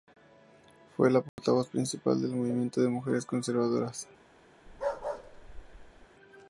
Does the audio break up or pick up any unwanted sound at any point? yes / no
yes